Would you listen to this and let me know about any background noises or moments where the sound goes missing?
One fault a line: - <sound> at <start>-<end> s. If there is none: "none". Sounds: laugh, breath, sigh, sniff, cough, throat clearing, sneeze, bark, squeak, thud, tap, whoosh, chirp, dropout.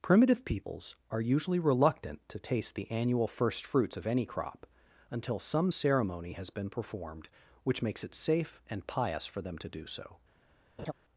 - laugh at 10.8-10.9 s